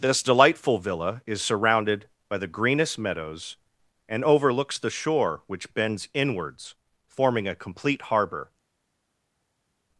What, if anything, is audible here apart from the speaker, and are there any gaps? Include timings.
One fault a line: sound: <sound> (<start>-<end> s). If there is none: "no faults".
no faults